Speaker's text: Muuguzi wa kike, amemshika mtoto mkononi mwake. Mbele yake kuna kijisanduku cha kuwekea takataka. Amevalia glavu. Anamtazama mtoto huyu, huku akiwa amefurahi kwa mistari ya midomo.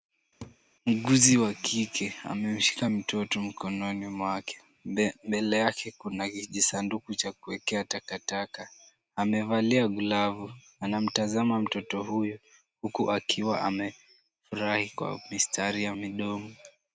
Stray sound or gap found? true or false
true